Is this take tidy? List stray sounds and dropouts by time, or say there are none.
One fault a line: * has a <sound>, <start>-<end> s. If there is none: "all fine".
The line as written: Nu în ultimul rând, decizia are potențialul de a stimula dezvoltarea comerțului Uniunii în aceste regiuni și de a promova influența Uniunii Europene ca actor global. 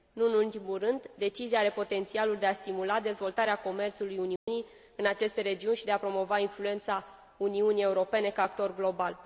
* has a dropout, 4.4-4.5 s